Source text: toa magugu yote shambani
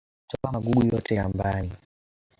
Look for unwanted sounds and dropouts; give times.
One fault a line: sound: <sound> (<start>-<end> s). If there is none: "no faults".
no faults